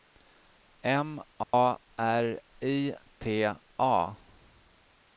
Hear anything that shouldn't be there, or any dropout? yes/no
yes